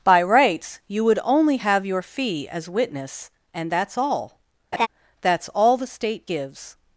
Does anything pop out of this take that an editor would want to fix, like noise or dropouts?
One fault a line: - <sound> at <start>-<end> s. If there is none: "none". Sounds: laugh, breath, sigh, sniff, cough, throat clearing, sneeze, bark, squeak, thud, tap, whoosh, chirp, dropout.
- laugh at 4.7-4.9 s